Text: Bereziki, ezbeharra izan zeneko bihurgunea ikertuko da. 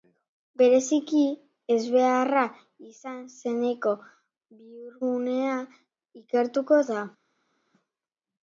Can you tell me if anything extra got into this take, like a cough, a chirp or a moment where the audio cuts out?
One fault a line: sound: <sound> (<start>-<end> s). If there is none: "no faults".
no faults